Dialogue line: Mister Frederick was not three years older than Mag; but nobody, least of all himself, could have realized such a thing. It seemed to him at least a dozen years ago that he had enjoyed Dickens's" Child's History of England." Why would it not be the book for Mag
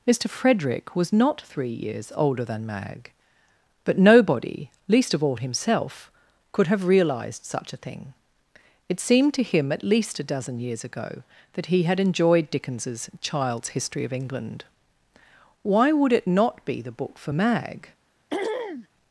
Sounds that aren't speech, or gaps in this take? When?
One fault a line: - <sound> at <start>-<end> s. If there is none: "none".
- throat clearing at 18.3-18.9 s